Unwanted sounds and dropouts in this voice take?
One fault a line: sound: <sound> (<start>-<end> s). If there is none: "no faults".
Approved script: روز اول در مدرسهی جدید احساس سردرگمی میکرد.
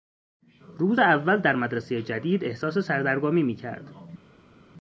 no faults